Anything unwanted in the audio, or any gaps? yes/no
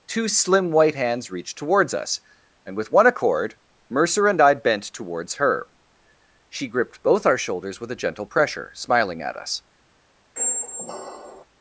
yes